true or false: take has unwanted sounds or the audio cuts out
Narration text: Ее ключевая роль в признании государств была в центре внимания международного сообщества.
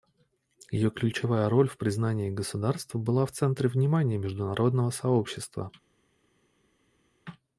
false